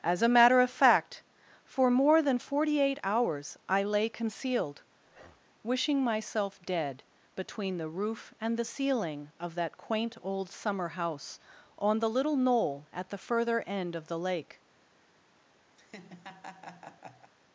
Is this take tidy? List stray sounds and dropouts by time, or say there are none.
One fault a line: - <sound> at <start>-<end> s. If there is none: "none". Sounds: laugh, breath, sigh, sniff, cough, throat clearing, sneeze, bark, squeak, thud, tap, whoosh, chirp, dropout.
- breath at 5.0-5.5 s
- laugh at 15.8-17.3 s